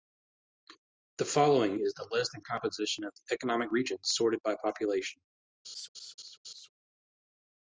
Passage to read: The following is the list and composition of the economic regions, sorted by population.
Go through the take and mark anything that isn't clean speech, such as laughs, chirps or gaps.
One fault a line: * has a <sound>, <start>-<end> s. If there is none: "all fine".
* has a laugh, 5.6-6.7 s